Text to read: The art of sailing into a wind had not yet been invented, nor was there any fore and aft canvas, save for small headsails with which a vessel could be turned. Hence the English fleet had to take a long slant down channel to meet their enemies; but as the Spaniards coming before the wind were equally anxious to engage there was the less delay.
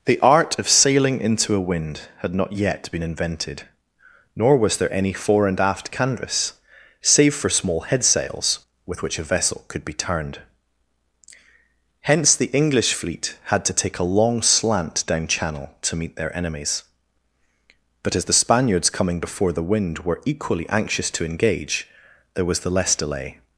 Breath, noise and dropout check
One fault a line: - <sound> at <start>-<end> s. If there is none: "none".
none